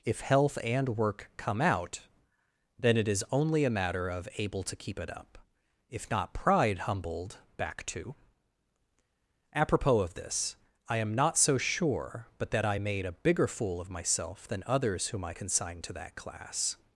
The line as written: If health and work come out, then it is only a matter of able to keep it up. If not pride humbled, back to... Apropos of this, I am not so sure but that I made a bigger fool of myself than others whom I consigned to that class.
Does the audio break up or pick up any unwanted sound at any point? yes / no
no